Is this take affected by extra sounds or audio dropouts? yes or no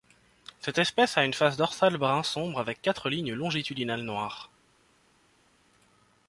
no